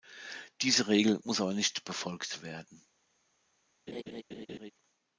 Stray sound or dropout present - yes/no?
yes